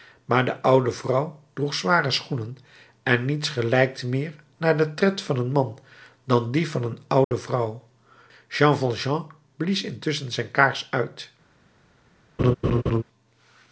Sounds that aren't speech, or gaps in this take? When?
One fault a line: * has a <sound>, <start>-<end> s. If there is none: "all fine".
* has a dropout, 7.2-7.3 s
* has a laugh, 12.4-13.0 s